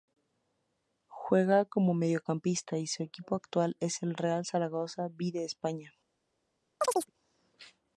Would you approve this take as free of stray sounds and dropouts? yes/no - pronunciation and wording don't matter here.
no